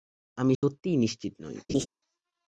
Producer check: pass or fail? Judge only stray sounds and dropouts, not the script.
fail